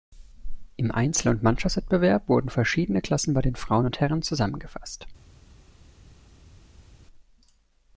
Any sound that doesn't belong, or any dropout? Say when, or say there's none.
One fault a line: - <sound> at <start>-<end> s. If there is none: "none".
none